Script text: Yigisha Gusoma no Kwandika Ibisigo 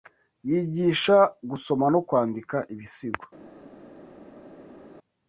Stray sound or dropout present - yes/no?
no